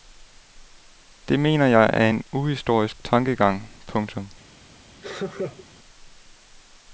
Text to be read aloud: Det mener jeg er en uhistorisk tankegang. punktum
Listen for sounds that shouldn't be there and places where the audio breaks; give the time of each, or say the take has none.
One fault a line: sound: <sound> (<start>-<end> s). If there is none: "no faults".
sound: laugh (5.0-5.7 s)